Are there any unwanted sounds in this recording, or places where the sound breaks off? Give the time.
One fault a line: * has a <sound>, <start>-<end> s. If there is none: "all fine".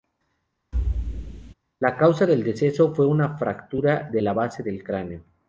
* has a thud, 0.7-1.5 s